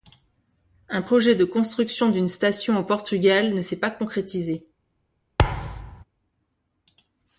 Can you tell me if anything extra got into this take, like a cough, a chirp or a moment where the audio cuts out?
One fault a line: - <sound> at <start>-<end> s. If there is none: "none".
- thud at 5.4-6.0 s